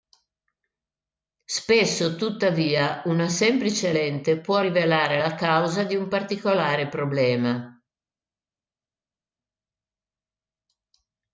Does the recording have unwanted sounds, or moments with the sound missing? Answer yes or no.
no